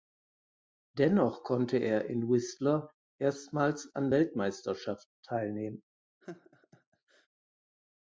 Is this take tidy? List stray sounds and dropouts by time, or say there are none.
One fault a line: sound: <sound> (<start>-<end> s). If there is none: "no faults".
sound: laugh (6.2-7.3 s)